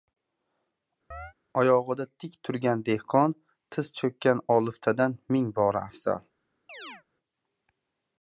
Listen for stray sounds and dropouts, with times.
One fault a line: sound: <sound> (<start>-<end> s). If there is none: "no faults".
sound: chirp (1.1-1.3 s)
sound: chirp (6.7-7.0 s)